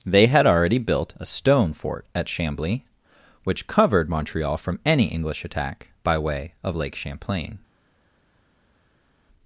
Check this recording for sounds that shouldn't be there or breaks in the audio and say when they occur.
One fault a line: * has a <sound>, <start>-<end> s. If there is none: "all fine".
all fine